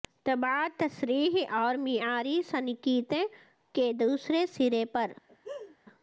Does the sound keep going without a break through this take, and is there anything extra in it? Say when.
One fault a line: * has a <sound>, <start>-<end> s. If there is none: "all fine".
* has a laugh, 5.3-5.8 s